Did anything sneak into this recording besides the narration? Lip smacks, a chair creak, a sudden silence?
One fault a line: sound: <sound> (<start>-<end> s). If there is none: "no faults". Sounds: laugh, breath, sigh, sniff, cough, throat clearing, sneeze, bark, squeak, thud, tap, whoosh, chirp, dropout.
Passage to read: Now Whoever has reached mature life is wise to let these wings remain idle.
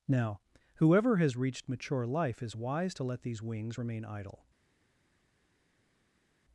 no faults